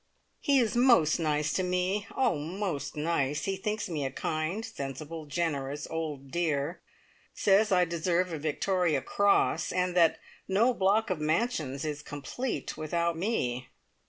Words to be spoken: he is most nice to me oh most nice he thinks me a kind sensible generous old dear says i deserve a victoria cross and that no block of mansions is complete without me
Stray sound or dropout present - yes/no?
no